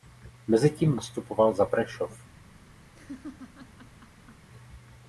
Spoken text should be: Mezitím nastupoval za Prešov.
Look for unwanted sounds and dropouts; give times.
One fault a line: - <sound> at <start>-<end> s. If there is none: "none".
- laugh at 2.9-4.5 s